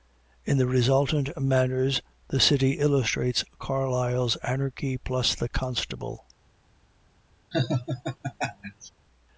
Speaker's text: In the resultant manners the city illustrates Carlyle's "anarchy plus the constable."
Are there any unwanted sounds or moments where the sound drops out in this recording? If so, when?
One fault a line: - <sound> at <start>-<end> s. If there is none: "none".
- laugh at 7.5-8.9 s